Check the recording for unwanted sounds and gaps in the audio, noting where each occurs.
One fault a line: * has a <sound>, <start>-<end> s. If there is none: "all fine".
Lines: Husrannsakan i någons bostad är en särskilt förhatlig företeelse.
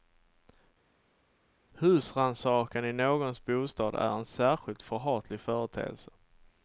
all fine